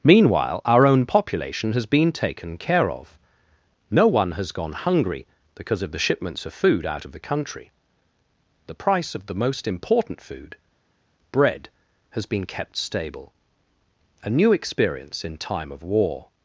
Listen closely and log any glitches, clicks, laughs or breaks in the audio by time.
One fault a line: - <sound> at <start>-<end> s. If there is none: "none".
none